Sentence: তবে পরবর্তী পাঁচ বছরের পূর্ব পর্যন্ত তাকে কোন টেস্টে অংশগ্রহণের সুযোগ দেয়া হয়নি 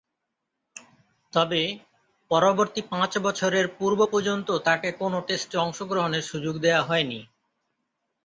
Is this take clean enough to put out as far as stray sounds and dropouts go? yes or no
yes